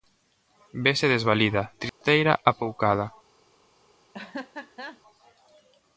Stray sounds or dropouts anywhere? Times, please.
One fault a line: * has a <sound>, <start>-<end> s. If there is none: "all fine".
* has a dropout, 1.9-2.0 s
* has a laugh, 4.1-5.0 s